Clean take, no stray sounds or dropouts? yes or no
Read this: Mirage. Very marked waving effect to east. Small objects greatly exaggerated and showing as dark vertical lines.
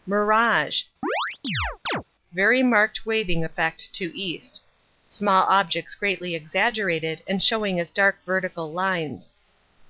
no